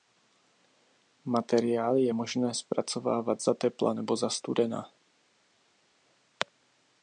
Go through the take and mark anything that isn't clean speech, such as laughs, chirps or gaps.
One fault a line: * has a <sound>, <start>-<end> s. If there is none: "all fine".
all fine